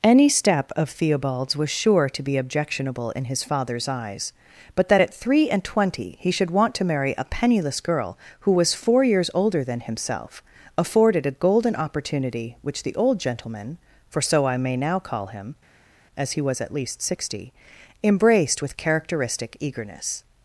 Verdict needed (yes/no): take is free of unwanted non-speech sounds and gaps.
yes